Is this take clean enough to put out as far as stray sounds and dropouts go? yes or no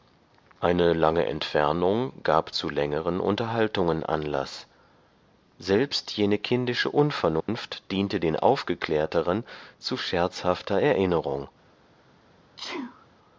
no